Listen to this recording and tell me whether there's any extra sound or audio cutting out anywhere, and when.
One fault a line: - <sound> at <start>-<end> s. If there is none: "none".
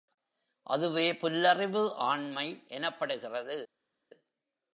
none